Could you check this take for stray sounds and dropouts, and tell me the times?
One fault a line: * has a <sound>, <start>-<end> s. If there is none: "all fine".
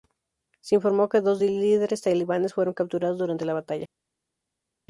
all fine